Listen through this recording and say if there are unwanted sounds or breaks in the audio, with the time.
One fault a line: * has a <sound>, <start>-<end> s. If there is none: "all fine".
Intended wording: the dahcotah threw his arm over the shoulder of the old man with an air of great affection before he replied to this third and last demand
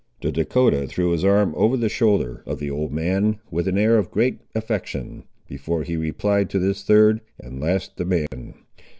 * has a dropout, 8.3-8.3 s